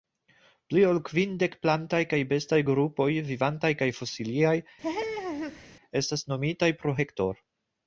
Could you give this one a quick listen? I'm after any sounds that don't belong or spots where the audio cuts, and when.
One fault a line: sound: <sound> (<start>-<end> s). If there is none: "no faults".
sound: laugh (4.8-5.7 s)